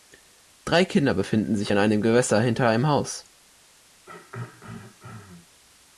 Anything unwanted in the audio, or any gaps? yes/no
yes